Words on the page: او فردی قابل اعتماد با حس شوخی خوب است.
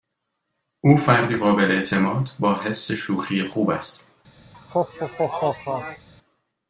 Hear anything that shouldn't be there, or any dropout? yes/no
yes